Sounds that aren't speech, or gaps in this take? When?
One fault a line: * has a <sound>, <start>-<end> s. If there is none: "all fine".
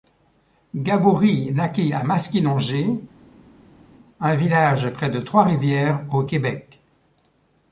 all fine